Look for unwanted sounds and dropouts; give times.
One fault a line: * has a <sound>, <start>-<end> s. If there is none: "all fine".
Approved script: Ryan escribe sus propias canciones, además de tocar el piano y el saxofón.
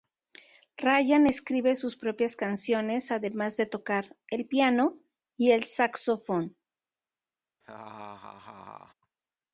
* has a laugh, 7.6-8.9 s